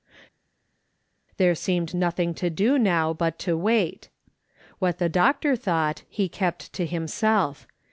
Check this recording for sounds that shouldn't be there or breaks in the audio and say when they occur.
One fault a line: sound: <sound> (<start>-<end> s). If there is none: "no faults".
no faults